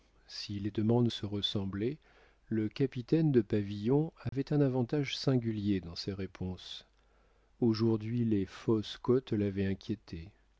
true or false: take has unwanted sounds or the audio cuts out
true